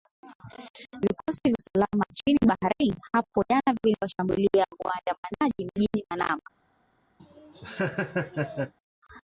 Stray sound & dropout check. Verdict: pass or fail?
fail